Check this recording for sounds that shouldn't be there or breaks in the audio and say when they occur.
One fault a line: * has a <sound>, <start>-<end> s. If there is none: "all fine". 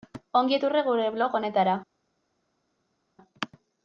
all fine